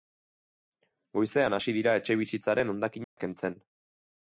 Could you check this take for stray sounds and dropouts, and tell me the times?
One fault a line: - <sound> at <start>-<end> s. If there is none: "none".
- dropout at 3.0-3.2 s